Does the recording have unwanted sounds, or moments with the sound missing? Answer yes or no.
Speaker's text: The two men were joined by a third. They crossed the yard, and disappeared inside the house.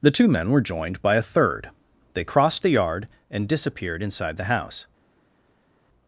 no